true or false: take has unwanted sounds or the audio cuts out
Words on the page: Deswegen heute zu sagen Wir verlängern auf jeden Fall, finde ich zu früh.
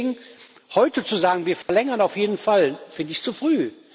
true